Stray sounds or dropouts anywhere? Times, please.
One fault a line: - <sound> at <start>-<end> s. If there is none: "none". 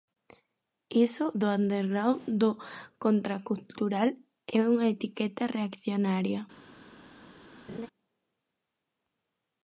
- laugh at 7.7-7.9 s